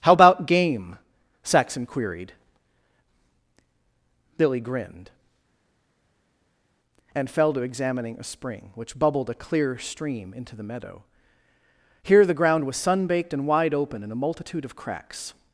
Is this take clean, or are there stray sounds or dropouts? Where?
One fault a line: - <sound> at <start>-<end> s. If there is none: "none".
none